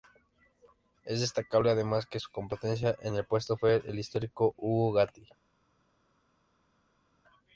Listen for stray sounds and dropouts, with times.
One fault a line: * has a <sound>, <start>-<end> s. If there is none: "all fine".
all fine